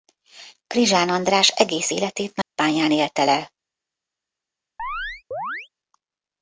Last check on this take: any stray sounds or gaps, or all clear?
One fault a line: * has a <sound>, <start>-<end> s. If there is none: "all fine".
* has a dropout, 2.4-2.6 s
* has a chirp, 4.8-5.7 s